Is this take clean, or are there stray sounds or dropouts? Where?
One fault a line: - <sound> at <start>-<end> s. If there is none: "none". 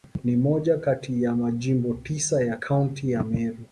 none